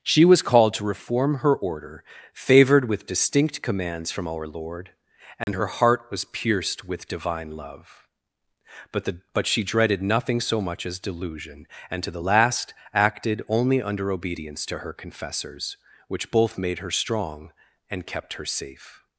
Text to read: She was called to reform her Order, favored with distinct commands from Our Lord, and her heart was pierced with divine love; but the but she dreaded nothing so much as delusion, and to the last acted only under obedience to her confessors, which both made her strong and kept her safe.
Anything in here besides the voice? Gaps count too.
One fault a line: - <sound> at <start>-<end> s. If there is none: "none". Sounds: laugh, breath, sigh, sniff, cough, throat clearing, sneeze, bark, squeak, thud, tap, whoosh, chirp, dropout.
- dropout at 5.4-5.5 s